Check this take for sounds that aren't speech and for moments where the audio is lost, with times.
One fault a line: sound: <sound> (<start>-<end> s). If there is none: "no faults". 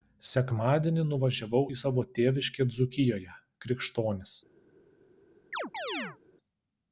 sound: chirp (5.5-6.2 s)